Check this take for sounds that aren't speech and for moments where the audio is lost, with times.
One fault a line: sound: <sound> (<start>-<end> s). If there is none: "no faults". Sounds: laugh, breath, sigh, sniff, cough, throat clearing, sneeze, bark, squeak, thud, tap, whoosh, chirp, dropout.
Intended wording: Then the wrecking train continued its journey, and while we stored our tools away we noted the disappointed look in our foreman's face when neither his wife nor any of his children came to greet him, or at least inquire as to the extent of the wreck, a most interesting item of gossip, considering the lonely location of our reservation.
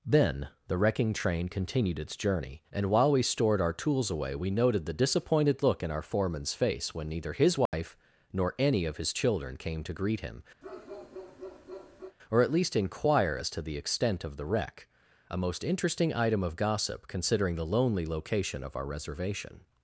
sound: dropout (7.7-7.7 s)
sound: bark (10.6-12.2 s)